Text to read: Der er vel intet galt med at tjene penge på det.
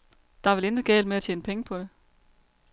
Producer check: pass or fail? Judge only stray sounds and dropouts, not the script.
pass